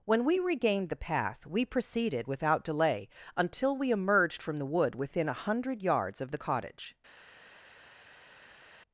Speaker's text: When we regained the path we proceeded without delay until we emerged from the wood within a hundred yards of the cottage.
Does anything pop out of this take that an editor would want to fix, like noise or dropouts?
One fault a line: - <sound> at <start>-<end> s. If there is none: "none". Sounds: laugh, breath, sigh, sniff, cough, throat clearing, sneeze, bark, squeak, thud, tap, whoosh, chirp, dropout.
none